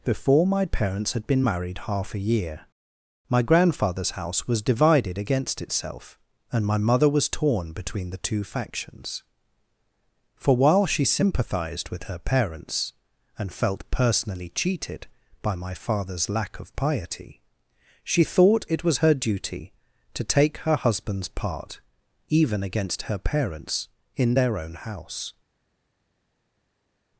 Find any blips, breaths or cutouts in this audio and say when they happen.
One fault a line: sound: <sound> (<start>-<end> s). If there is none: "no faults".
no faults